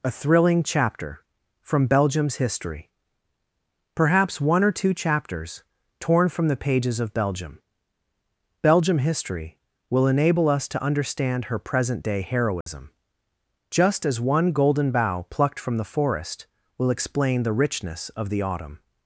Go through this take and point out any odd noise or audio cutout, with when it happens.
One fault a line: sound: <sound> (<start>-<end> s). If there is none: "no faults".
sound: dropout (12.6-12.7 s)